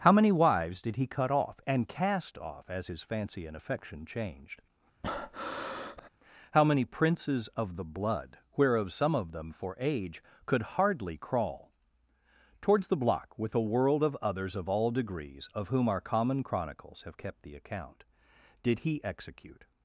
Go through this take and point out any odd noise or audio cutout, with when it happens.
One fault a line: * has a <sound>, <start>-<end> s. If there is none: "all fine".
* has a breath, 5.0-6.1 s